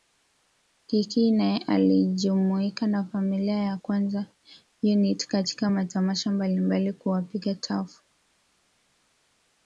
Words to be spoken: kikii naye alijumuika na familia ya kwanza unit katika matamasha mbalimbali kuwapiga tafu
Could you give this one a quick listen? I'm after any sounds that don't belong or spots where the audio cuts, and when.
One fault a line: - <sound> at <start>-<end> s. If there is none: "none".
none